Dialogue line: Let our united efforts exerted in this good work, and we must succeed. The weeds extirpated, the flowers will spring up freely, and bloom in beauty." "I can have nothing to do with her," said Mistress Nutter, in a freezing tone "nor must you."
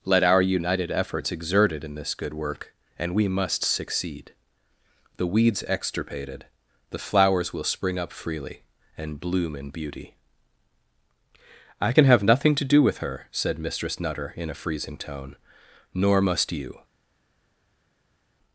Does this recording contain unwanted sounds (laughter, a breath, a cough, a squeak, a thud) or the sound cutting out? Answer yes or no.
no